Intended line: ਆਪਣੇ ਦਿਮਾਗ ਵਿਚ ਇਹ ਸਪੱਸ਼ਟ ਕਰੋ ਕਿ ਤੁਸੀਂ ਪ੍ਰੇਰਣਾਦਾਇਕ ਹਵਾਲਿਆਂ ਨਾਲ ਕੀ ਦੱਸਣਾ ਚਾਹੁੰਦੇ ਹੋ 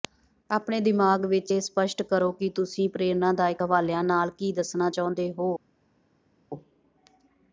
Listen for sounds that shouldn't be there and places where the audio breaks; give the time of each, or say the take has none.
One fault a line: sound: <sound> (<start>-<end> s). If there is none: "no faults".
no faults